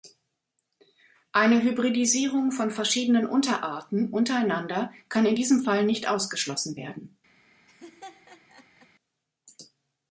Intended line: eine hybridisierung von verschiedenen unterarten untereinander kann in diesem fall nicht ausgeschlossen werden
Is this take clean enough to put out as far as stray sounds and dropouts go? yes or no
no